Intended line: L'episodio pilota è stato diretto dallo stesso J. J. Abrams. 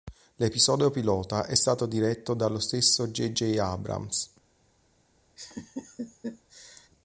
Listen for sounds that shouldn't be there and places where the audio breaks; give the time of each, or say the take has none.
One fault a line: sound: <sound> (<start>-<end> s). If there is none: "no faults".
sound: laugh (5.4-6.9 s)